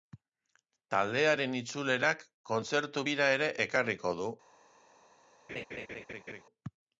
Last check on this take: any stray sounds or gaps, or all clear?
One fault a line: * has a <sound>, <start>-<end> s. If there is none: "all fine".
* has a laugh, 5.5-6.4 s